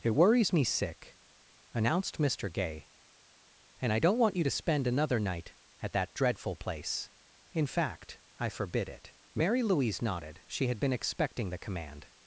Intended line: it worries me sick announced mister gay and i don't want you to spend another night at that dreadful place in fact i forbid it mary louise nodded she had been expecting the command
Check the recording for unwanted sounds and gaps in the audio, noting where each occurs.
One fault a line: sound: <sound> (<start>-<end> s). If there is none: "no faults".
no faults